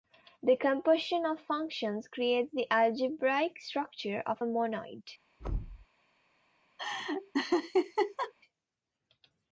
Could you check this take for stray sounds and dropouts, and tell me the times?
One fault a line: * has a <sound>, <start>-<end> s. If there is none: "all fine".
* has a thud, 5.4-5.9 s
* has a laugh, 6.8-8.3 s